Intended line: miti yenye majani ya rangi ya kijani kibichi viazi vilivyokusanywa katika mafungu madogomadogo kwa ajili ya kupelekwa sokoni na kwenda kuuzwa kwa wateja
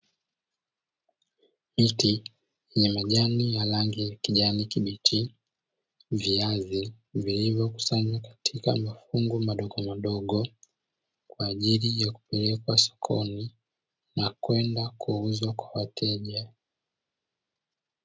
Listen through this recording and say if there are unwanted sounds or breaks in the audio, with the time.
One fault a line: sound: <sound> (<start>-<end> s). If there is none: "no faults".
no faults